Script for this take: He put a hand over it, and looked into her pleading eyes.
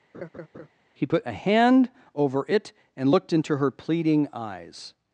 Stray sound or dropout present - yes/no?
yes